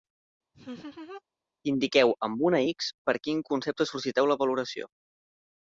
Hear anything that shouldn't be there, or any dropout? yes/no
yes